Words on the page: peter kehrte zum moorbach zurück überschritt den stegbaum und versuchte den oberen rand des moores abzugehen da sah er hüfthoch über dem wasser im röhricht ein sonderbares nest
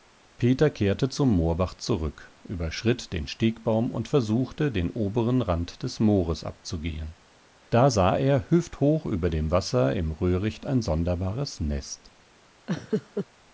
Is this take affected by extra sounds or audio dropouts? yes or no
yes